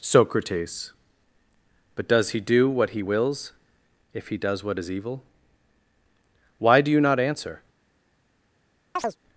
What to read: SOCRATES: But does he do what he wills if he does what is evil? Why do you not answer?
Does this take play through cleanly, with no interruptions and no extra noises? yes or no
no